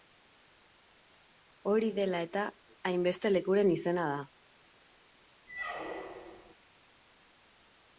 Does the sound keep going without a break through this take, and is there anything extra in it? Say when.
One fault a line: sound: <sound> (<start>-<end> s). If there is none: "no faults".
sound: squeak (5.5-6.5 s)